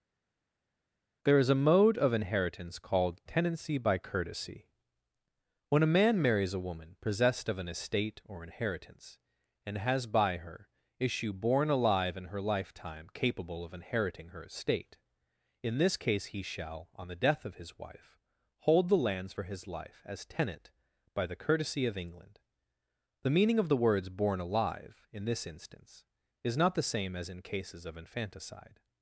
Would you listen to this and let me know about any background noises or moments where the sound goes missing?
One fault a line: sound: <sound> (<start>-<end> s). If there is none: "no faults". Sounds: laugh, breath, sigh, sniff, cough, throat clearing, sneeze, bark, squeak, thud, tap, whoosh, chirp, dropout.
no faults